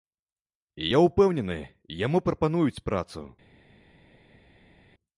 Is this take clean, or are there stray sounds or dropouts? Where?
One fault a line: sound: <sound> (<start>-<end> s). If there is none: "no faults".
no faults